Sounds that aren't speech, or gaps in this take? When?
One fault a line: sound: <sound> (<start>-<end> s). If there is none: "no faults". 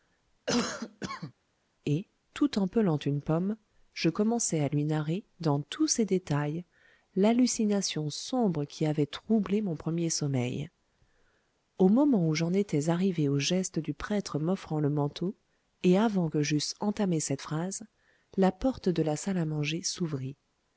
sound: cough (0.5-1.3 s)